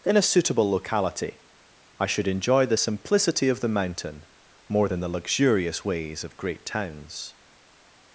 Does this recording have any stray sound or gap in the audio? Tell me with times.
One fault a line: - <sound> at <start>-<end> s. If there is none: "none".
none